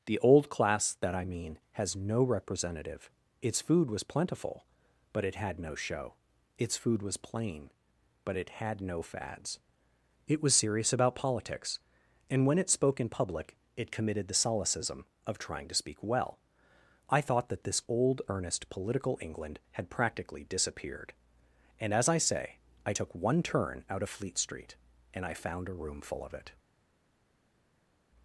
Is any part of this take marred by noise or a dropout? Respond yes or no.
no